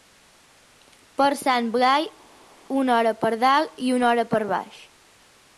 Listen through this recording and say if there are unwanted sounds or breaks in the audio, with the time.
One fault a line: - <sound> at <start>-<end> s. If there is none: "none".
none